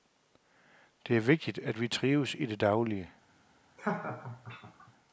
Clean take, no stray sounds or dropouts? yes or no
no